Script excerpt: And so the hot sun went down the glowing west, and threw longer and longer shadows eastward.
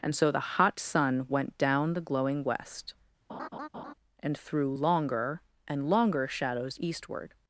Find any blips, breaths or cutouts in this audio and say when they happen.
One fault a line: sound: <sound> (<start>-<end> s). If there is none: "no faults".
sound: laugh (3.3-3.9 s)